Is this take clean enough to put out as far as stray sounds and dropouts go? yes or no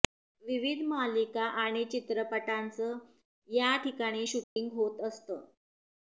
no